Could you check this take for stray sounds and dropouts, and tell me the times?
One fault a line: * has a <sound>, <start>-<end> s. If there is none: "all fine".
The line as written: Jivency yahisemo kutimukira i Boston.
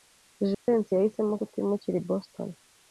* has a dropout, 0.5-0.7 s